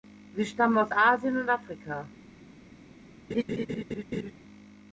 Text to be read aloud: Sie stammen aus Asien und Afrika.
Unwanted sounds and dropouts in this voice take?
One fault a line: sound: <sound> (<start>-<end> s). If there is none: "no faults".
sound: laugh (3.3-4.3 s)